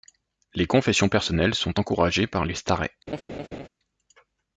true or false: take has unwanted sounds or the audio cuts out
true